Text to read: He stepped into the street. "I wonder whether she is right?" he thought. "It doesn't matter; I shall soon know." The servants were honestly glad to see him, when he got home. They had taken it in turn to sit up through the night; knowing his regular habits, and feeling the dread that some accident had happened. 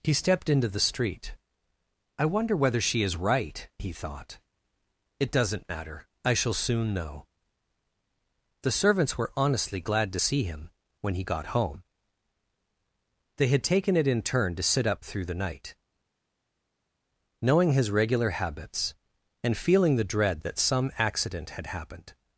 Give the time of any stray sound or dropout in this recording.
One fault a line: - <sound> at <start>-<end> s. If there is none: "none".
none